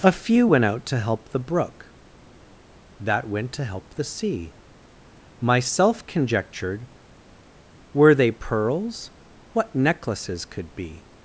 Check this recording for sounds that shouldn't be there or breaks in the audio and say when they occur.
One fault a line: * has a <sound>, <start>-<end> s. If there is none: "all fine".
all fine